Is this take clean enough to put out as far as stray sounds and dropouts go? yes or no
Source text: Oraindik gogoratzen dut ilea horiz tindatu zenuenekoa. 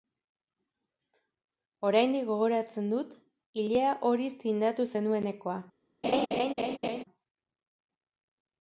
no